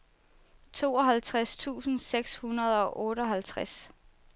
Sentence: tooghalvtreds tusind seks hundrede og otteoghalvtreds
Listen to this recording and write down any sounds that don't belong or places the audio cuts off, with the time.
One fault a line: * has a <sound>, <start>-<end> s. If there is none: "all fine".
all fine